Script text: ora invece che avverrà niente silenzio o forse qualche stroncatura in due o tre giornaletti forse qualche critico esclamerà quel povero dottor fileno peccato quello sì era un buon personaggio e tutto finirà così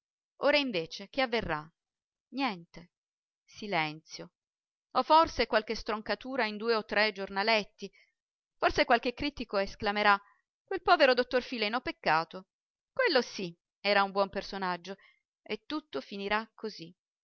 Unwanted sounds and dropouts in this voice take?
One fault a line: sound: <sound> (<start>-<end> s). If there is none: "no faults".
no faults